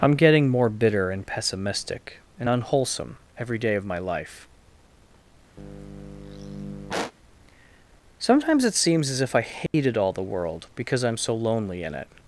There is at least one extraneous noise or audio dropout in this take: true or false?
true